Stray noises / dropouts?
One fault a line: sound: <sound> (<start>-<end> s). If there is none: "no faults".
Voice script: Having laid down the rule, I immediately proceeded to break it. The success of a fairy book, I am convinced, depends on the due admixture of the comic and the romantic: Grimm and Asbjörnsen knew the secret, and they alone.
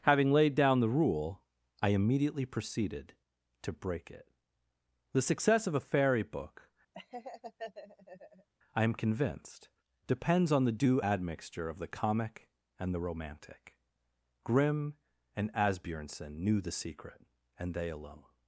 sound: laugh (6.9-8.5 s)